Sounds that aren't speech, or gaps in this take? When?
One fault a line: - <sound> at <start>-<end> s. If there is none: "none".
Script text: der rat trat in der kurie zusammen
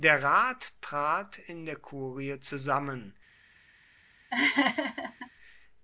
- laugh at 4.3-5.3 s